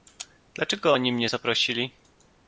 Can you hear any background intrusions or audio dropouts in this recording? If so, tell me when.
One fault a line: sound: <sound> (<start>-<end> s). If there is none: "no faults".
no faults